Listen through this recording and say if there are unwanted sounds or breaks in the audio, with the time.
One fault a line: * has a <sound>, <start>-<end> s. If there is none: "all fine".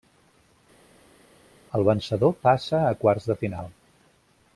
all fine